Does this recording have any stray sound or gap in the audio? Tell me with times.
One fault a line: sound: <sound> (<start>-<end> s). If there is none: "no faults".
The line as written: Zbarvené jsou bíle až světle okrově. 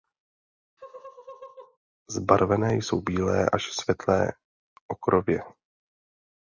sound: laugh (0.8-1.8 s)